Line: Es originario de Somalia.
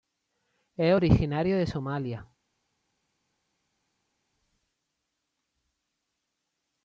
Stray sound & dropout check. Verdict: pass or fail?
pass